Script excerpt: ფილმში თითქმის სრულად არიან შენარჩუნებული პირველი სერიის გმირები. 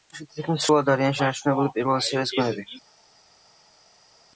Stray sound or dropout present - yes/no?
no